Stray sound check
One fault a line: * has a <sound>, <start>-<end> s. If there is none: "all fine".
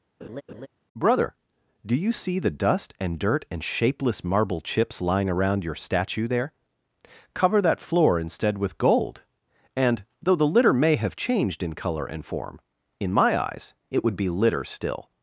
* has a laugh, 0.2-0.7 s